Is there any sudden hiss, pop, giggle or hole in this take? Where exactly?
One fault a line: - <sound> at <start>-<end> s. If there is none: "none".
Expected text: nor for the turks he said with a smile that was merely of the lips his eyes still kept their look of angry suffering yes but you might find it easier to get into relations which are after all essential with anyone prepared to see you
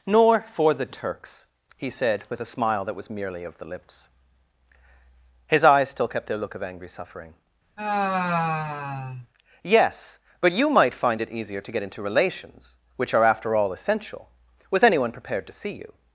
- sigh at 7.8-9.3 s